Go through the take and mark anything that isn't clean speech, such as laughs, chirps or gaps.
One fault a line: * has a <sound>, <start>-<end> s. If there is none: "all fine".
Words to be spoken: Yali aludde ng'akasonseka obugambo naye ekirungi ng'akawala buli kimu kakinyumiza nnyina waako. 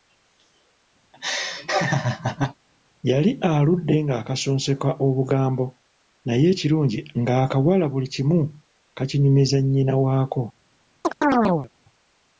* has a laugh, 1.1-2.5 s
* has a chirp, 11.0-11.7 s